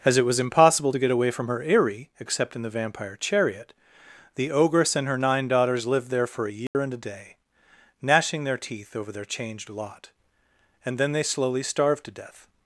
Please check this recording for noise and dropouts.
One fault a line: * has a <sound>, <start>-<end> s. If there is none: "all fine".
* has a dropout, 6.7-6.7 s